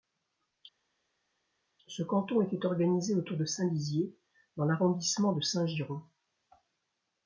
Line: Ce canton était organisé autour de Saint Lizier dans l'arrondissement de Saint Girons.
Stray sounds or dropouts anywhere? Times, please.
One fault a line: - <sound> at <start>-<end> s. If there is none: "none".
none